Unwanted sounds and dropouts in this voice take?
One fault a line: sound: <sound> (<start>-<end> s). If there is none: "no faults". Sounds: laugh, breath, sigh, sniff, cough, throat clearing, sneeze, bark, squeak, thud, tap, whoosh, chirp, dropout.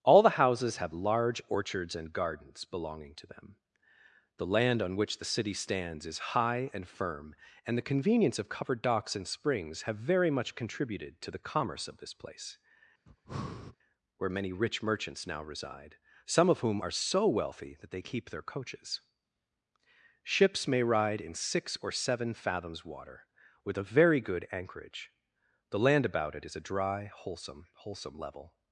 sound: breath (13.1-13.8 s)